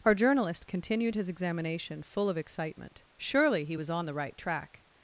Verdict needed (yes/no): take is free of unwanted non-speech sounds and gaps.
yes